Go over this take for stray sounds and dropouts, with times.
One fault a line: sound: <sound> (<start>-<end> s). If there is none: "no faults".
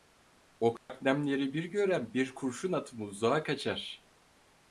sound: dropout (0.8-0.9 s)